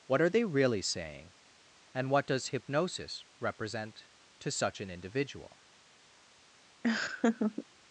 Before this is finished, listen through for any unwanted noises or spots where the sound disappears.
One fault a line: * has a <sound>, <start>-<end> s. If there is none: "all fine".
* has a laugh, 6.8-7.7 s